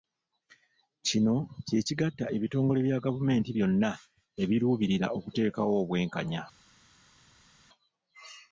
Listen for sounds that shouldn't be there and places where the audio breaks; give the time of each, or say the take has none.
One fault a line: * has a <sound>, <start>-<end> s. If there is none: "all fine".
all fine